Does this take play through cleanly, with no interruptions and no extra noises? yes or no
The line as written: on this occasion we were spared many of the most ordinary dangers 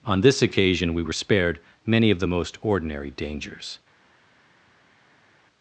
yes